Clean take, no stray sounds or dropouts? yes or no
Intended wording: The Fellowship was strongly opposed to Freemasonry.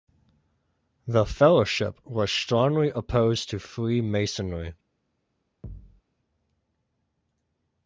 no